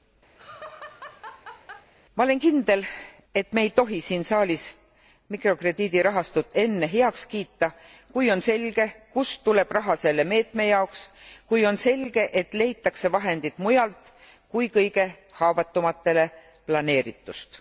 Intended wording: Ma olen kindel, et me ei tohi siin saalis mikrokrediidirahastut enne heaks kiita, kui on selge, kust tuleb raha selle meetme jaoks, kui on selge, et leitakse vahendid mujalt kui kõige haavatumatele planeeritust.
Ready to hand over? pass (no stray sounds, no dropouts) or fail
fail